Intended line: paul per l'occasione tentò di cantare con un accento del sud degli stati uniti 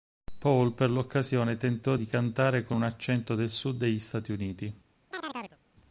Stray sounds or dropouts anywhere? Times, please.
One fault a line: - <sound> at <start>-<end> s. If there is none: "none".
- chirp at 5.1-5.6 s